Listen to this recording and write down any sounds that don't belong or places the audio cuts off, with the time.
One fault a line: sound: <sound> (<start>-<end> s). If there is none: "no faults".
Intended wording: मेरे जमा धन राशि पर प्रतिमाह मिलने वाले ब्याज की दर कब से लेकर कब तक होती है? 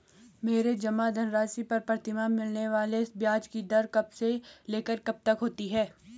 no faults